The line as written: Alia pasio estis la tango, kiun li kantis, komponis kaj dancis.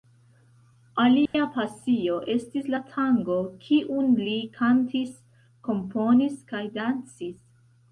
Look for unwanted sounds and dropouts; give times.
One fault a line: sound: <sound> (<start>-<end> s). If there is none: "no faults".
sound: dropout (1.3-1.3 s)